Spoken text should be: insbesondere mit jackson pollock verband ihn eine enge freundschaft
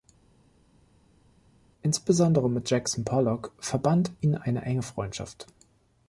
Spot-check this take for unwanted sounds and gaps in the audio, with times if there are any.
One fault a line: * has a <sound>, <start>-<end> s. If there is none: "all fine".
all fine